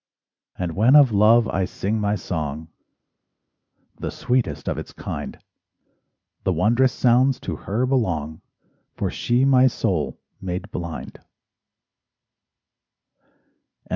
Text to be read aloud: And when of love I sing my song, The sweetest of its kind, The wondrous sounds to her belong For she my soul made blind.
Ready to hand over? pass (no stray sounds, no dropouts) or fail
pass